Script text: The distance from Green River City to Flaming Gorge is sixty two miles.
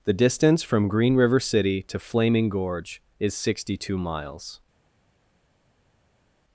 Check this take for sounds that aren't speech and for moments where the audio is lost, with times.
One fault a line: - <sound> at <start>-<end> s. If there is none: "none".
none